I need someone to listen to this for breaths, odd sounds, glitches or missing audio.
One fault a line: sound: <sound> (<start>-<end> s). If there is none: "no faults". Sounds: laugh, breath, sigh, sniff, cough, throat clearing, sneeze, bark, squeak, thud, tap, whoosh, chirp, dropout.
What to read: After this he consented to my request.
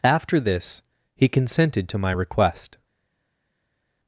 no faults